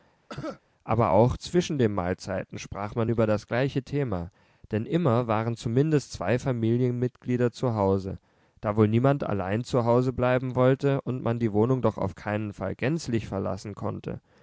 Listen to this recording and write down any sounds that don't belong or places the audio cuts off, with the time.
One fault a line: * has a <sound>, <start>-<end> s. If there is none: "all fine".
* has a cough, 0.3-0.6 s